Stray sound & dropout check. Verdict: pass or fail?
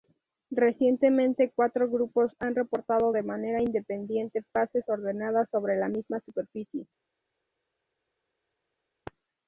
pass